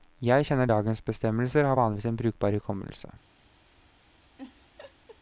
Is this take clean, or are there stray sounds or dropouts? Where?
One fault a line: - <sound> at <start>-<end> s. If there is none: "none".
- laugh at 4.4-5.2 s